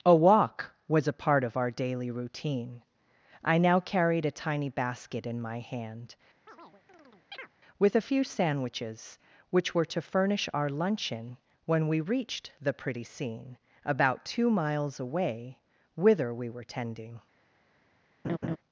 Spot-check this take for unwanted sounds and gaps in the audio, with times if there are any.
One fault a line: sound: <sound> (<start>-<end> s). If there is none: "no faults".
sound: chirp (6.5-7.5 s)
sound: laugh (18.2-18.6 s)